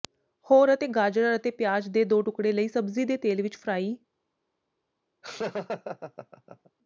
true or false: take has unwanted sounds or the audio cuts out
true